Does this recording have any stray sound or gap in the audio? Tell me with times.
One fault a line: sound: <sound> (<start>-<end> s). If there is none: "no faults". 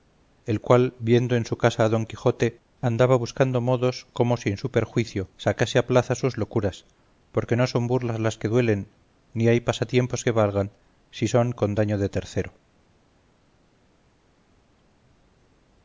no faults